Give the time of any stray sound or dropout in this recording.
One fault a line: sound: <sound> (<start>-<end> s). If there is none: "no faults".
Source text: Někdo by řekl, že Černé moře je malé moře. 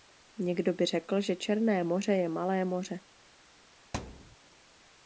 sound: thud (3.9-4.4 s)